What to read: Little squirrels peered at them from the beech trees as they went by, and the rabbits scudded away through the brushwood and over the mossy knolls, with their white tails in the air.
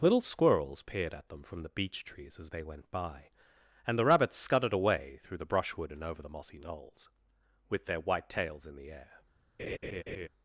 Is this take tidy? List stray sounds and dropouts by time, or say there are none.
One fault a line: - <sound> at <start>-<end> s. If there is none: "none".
- laugh at 9.6-10.3 s